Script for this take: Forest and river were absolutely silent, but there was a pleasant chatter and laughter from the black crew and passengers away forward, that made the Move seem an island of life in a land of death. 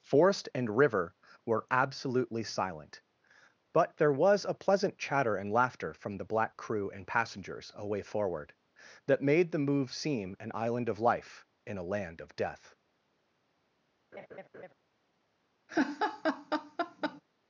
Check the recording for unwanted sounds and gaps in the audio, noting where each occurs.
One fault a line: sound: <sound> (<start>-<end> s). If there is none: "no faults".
sound: laugh (14.1-14.7 s)
sound: laugh (15.7-17.2 s)